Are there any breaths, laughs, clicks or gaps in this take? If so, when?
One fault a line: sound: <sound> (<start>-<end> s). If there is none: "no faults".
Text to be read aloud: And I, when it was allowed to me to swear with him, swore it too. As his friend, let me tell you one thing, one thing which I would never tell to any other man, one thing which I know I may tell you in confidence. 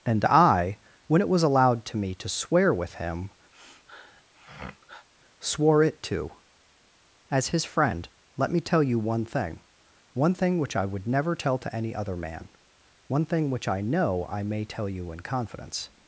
sound: sniff (3.5-5.1 s)